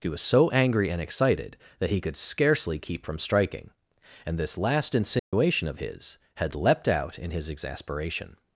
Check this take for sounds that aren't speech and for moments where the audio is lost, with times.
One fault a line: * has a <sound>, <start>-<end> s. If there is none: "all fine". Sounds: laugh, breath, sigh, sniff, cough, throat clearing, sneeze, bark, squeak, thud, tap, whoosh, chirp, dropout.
* has a dropout, 5.2-5.3 s